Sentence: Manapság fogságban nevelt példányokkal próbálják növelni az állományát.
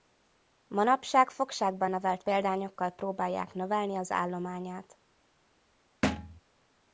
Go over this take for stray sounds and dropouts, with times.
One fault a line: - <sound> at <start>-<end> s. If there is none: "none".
- thud at 6.0-6.4 s